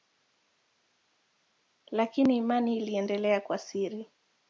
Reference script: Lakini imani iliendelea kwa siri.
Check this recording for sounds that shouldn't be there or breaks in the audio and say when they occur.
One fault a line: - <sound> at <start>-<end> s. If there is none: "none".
none